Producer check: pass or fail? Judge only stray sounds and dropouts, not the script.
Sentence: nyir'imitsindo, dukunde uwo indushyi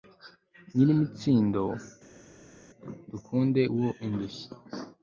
pass